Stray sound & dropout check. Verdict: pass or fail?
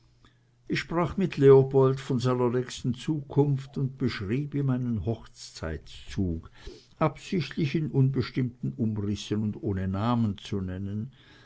pass